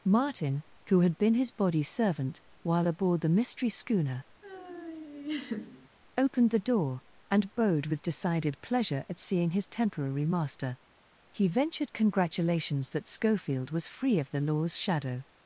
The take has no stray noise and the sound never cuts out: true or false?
false